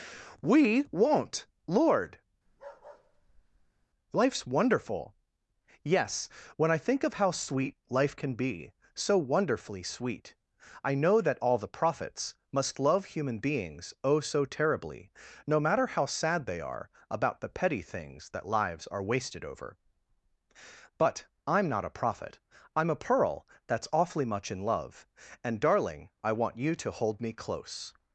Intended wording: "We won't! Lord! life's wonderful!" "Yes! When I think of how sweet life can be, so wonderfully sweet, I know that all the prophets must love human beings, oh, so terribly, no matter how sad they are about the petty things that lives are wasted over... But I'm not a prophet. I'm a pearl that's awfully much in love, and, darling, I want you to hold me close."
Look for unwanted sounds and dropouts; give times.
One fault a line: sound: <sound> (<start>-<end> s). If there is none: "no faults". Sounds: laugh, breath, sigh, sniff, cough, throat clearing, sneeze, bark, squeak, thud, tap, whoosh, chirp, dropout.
sound: bark (2.5-3.9 s)